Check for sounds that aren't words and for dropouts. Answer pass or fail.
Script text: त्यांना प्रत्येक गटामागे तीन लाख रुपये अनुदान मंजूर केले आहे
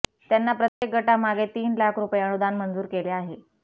fail